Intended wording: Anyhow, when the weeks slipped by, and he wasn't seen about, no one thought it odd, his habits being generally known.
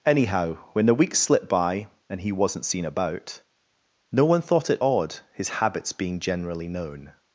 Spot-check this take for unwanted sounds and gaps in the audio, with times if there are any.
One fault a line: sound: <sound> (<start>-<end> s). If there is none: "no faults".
no faults